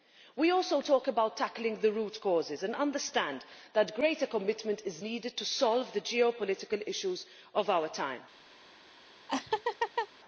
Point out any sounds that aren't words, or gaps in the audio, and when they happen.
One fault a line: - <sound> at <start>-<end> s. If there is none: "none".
- laugh at 9.3-10.1 s